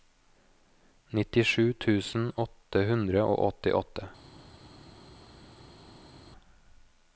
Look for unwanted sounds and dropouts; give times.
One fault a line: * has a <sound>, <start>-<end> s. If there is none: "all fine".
all fine